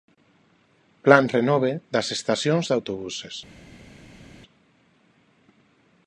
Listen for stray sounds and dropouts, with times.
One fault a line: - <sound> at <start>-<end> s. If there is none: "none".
none